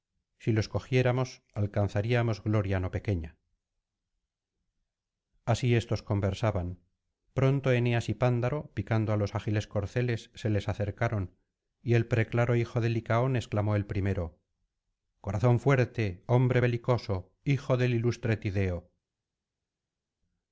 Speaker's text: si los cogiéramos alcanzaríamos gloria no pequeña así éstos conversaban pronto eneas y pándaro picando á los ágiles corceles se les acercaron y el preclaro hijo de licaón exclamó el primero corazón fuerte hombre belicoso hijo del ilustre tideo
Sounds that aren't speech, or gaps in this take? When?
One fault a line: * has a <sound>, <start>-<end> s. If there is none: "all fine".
all fine